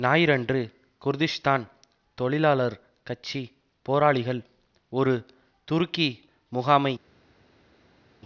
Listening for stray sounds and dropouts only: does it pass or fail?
pass